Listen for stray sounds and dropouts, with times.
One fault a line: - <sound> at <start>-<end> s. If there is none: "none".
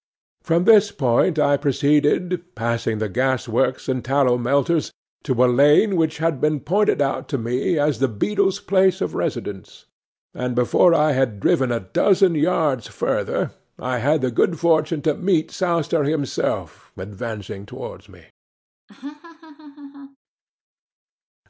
- laugh at 18.9-20.2 s